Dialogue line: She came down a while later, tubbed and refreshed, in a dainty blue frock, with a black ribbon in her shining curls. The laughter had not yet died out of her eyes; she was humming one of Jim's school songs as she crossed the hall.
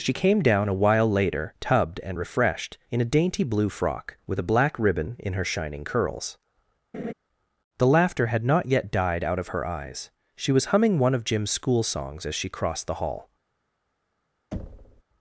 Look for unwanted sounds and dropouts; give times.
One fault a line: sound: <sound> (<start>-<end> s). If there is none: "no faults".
sound: laugh (6.9-7.1 s)
sound: thud (14.5-15.0 s)